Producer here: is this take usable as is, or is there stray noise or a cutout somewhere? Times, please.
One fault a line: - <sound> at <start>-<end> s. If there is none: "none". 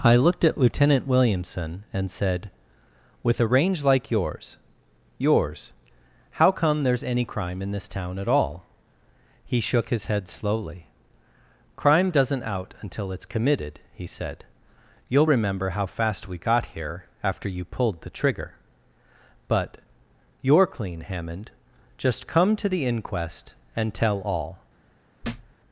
- thud at 25.2-25.5 s